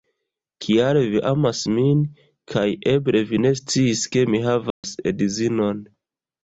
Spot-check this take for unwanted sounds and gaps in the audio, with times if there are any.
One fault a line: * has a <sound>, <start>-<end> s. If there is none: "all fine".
* has a dropout, 4.7-4.8 s